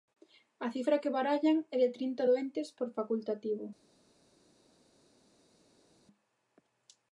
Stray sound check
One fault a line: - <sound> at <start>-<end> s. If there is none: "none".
none